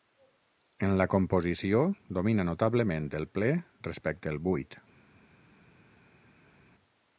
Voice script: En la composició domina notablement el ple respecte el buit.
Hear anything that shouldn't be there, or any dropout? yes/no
no